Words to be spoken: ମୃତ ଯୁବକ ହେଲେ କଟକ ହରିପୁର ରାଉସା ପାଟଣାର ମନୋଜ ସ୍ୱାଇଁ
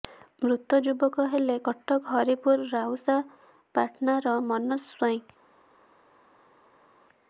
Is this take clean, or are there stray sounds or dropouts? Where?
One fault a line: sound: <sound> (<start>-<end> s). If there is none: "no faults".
no faults